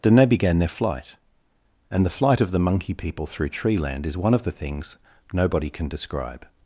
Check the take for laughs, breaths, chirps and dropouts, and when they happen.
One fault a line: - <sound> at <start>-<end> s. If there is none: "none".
none